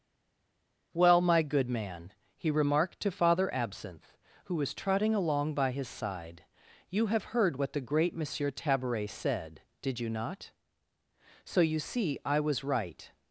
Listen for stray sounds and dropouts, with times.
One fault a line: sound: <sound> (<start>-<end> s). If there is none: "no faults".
no faults